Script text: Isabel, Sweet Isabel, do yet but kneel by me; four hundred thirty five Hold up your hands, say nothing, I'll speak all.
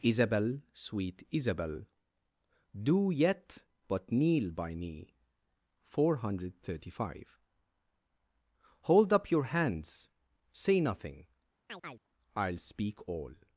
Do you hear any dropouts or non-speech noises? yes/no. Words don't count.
yes